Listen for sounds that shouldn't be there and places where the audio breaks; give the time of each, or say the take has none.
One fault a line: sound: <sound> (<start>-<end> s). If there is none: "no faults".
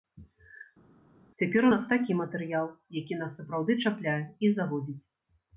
no faults